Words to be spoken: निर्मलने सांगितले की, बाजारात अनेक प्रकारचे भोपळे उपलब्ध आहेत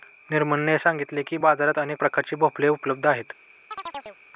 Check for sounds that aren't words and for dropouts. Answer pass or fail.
fail